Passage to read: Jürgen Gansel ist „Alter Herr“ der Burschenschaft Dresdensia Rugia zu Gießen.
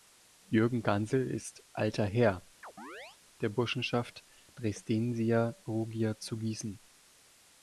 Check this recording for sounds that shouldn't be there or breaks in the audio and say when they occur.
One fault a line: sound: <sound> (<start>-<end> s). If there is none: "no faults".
sound: chirp (2.6-3.2 s)